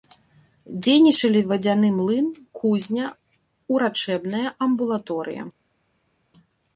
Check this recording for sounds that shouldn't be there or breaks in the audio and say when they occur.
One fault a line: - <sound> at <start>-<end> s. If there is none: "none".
none